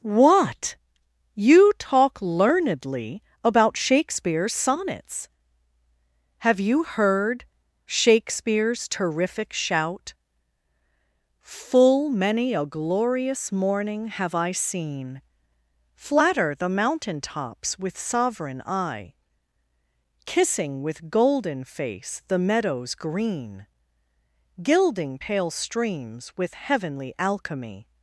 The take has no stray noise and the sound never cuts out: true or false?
true